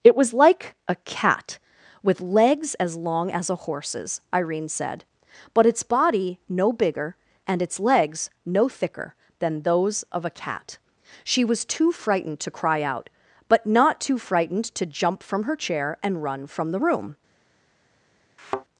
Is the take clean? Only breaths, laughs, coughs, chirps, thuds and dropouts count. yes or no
no